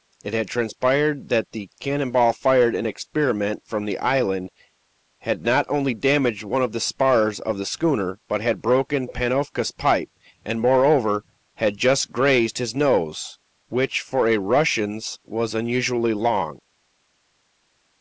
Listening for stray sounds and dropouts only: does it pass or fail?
pass